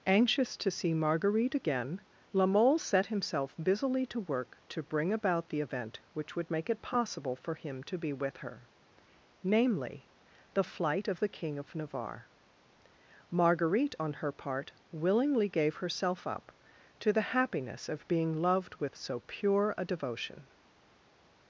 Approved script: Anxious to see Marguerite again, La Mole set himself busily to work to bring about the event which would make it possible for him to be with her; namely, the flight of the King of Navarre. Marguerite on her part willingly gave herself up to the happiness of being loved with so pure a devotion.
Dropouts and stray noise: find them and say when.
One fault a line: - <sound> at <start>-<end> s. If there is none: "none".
none